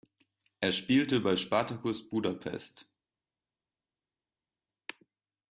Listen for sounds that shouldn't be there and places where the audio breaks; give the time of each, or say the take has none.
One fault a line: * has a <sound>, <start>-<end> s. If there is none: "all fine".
all fine